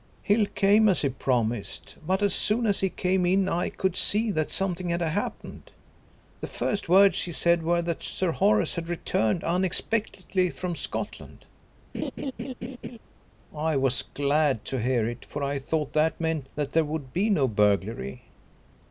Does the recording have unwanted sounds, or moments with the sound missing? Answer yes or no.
yes